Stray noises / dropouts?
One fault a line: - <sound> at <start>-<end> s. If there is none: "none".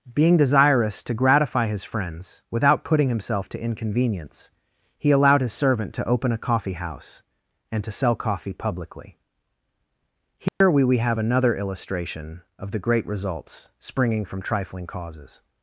- dropout at 10.5-10.6 s